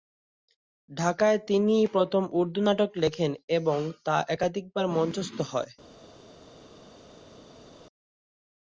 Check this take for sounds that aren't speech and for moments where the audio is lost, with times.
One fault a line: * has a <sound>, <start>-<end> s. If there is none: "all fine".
all fine